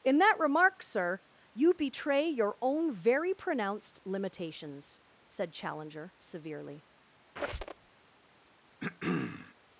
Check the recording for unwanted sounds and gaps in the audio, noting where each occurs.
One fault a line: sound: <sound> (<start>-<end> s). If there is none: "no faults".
sound: squeak (7.4-7.9 s)
sound: throat clearing (8.8-9.5 s)